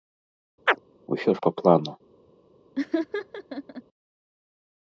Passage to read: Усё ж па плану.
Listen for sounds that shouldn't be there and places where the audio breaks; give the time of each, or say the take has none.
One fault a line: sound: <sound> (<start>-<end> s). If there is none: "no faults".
sound: chirp (0.7-0.8 s)
sound: laugh (2.7-3.8 s)